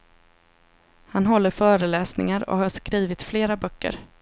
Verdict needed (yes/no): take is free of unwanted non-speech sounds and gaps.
yes